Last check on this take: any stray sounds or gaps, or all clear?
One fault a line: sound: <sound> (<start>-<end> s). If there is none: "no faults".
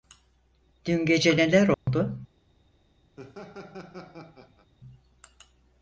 sound: dropout (1.7-1.9 s)
sound: laugh (3.2-4.7 s)